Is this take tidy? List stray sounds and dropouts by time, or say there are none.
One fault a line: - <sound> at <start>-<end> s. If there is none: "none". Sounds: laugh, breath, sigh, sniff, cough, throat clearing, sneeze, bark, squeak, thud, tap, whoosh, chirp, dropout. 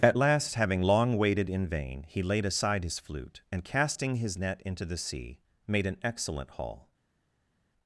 none